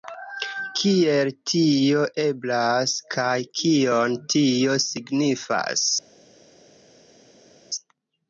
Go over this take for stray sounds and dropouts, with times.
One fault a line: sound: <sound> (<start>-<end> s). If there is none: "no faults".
no faults